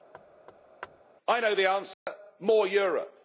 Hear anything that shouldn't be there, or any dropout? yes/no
yes